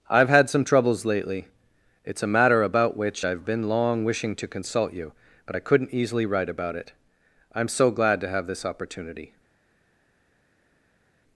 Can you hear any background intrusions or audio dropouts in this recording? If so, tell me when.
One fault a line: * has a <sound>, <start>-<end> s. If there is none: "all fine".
all fine